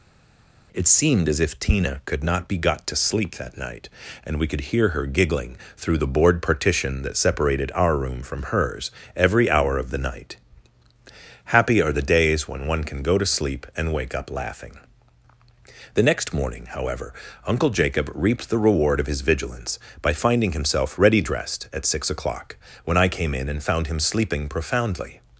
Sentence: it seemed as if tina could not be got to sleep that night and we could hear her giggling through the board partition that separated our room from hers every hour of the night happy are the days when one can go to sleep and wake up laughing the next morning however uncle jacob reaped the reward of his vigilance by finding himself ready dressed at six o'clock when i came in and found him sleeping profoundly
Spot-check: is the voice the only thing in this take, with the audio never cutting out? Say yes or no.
yes